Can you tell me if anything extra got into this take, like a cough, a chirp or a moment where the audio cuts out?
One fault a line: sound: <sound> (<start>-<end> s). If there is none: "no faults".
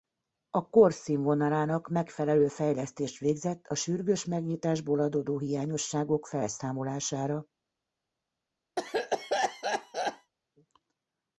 sound: cough (8.8-10.3 s)